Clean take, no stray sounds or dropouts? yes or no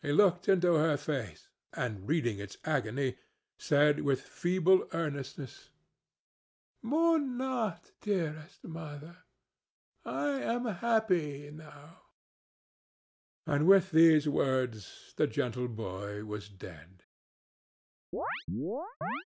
no